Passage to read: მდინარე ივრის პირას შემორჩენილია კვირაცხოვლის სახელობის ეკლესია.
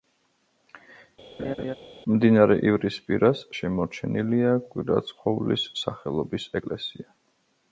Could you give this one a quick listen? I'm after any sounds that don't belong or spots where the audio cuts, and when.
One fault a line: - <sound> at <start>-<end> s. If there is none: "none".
- laugh at 1.4-1.7 s